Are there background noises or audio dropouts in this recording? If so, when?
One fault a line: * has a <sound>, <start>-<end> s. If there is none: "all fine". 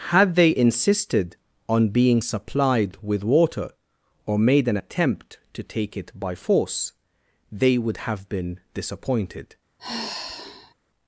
* has a sigh, 9.8-10.7 s